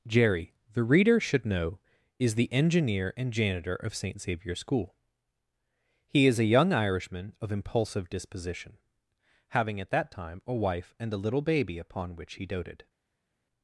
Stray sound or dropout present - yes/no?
no